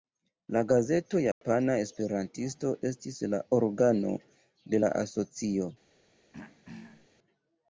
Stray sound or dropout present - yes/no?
yes